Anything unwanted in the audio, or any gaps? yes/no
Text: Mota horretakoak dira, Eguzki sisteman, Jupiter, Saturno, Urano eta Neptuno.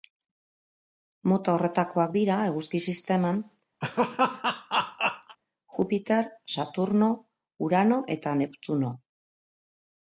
yes